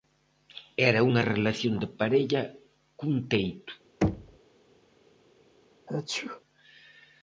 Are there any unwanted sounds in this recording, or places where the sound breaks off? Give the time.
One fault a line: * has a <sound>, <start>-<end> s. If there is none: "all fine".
* has a thud, 4.0-4.4 s
* has a sneeze, 5.9-6.4 s